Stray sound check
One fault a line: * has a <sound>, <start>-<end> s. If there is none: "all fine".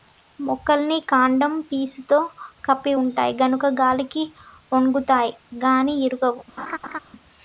* has a laugh, 6.6-7.0 s